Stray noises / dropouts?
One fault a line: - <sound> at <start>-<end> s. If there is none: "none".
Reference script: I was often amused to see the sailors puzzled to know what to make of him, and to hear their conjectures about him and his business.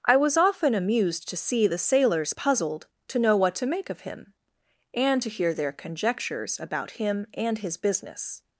none